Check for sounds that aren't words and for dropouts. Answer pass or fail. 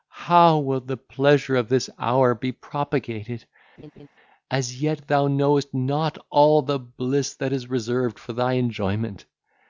fail